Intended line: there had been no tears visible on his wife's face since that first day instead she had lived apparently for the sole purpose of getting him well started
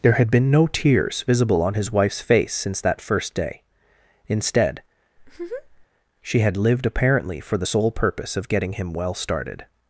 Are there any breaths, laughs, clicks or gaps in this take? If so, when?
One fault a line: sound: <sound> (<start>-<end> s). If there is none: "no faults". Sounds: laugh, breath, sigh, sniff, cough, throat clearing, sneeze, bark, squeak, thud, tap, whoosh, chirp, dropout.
sound: laugh (5.2-5.9 s)